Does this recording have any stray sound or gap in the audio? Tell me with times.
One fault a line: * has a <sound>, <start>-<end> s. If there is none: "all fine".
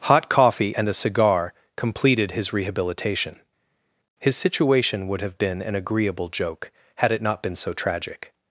all fine